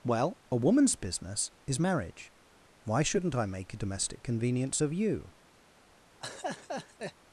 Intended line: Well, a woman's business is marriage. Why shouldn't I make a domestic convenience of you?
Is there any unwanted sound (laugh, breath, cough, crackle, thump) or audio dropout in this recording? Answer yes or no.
yes